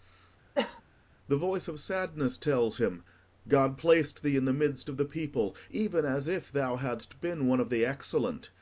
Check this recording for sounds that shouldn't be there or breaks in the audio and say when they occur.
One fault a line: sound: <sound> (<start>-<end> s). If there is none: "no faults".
sound: cough (0.5-0.8 s)